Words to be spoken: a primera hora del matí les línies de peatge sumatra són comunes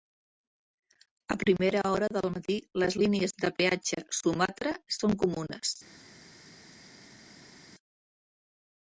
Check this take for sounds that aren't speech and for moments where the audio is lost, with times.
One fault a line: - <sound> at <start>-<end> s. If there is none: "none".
none